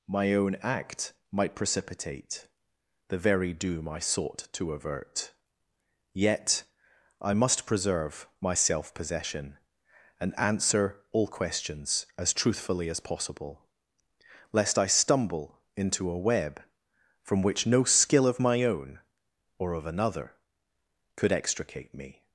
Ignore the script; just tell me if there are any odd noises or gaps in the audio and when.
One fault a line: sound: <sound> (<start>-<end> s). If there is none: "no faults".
no faults